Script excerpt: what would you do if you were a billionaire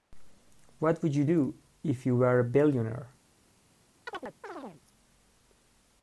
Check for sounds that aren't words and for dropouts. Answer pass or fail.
fail